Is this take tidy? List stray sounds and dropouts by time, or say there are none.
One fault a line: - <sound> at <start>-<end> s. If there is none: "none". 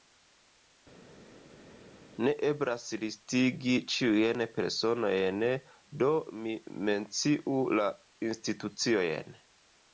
none